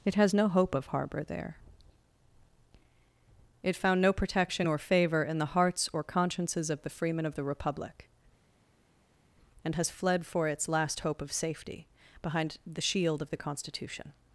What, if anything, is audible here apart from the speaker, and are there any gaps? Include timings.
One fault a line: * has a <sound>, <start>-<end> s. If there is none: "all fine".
all fine